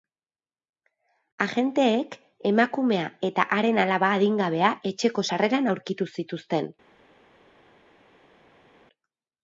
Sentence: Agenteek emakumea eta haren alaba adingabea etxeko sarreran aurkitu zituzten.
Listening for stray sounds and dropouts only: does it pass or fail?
pass